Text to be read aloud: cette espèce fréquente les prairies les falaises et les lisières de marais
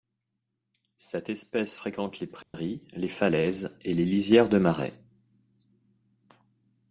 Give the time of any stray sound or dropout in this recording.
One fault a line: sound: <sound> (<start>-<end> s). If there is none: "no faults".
sound: dropout (2.4-2.5 s)